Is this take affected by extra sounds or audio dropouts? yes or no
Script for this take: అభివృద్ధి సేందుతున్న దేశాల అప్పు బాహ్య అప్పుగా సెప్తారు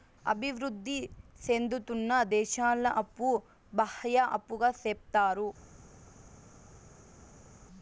no